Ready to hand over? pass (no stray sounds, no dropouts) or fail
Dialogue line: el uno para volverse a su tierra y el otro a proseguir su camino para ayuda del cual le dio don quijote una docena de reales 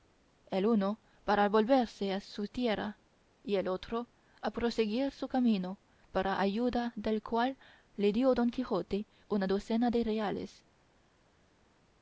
pass